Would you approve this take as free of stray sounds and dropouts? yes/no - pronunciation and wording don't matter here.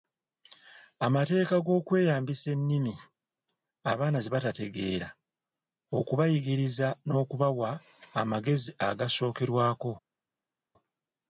yes